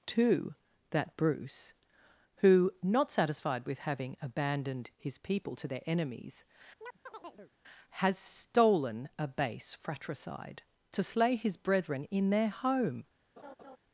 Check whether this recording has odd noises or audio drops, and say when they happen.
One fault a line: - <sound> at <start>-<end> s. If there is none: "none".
- chirp at 6.8-7.5 s
- laugh at 13.4-13.8 s